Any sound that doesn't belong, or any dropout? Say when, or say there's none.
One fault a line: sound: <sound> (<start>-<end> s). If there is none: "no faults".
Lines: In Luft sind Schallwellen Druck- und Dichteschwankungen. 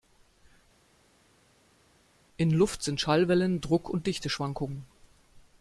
no faults